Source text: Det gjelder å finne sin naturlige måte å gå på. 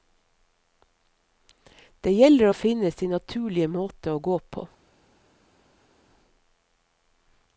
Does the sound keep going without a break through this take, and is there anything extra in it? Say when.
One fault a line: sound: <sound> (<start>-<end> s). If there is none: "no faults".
no faults